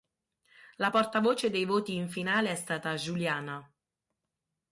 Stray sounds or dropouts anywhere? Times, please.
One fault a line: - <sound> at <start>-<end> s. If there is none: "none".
none